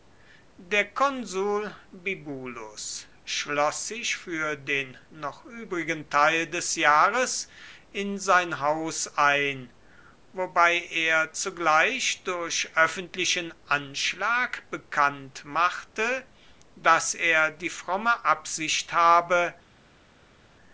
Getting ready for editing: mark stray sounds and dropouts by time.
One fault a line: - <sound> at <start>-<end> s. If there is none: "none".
none